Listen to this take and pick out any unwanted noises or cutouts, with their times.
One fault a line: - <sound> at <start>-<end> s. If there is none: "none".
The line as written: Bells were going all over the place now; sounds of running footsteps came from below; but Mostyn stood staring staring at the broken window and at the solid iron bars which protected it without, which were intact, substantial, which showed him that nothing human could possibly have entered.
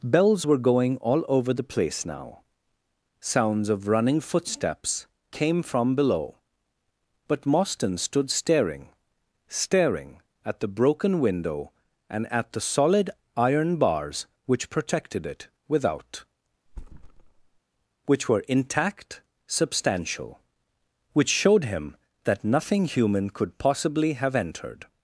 - thud at 16.7-17.6 s